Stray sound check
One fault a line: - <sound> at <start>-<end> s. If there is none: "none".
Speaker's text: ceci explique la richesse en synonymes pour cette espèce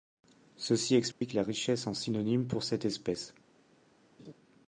- dropout at 1.1-1.2 s
- laugh at 4.2-4.3 s